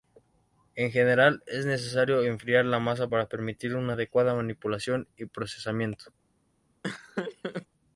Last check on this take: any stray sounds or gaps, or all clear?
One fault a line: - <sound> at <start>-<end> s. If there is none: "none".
- laugh at 6.8-7.7 s